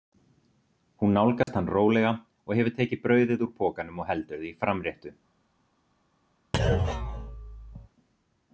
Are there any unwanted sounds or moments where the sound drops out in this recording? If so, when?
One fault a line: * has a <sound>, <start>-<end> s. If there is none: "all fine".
* has a dropout, 1.4-1.5 s
* has a thud, 6.5-7.9 s